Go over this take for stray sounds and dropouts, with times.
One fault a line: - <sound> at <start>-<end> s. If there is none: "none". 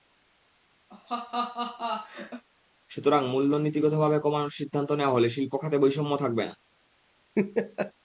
- laugh at 0.9-2.4 s
- laugh at 7.4-7.9 s